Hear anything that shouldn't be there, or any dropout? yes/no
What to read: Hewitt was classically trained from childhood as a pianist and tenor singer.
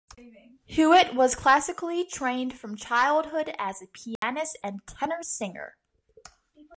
yes